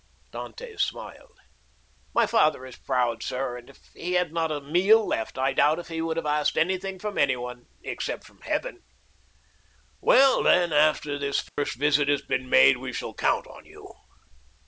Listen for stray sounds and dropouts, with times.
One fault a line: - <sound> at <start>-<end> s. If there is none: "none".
- dropout at 11.5-11.6 s